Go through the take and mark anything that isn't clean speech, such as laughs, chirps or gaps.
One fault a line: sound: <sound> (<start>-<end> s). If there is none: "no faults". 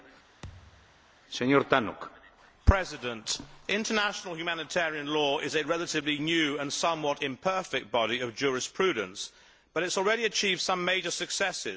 sound: thud (0.4-1.1 s)